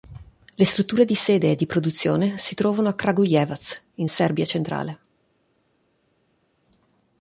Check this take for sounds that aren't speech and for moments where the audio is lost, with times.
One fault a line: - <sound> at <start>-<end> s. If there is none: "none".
none